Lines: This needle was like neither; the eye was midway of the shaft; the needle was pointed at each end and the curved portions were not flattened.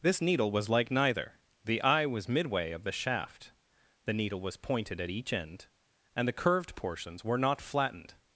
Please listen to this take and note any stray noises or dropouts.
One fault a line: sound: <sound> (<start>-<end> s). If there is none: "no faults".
no faults